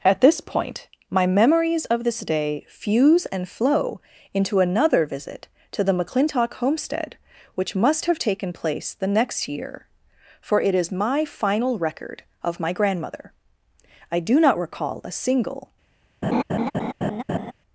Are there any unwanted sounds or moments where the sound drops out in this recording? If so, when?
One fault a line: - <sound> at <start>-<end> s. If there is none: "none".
- laugh at 16.2-17.5 s